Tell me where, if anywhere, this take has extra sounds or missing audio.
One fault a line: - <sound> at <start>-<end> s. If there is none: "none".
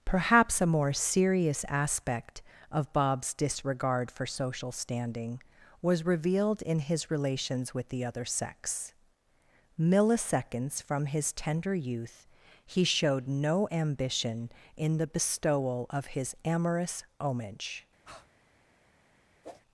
- breath at 18.0-18.3 s
- whoosh at 19.4-19.6 s